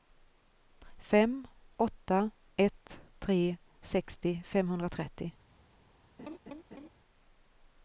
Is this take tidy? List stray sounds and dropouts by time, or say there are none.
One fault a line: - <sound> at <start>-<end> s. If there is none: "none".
- laugh at 6.2-6.9 s